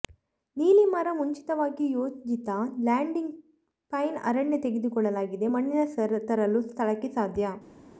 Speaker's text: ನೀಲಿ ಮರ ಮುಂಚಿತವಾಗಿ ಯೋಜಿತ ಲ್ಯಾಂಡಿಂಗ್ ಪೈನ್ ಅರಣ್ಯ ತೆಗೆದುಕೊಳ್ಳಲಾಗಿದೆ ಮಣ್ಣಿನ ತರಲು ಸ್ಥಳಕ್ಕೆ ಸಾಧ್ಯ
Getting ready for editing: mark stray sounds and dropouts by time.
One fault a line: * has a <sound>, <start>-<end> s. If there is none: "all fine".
all fine